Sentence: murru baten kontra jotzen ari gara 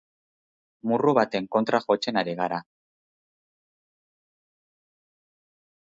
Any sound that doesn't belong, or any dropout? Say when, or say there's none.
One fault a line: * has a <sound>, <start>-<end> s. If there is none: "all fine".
all fine